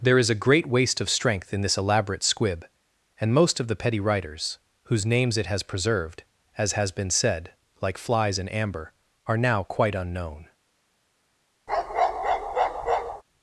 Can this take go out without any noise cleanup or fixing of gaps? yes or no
no